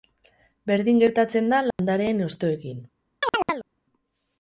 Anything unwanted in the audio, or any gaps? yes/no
yes